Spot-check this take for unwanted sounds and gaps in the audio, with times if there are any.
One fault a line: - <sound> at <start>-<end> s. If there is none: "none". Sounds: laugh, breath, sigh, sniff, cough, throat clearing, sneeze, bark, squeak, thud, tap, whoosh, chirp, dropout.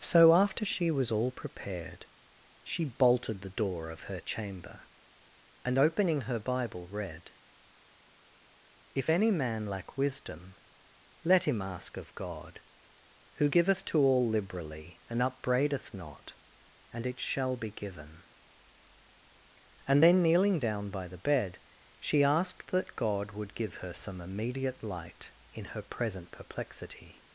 none